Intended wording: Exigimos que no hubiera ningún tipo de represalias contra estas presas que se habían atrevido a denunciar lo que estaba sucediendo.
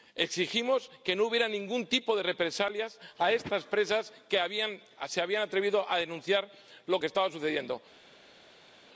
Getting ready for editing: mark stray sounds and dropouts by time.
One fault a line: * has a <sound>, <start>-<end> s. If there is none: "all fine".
all fine